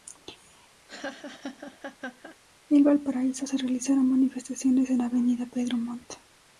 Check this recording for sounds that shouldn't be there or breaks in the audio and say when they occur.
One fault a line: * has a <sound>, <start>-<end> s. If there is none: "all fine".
* has a laugh, 0.9-2.4 s